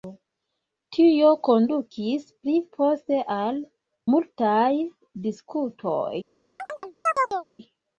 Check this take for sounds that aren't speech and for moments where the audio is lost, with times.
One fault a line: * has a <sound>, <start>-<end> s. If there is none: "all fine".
* has a chirp, 6.6-7.5 s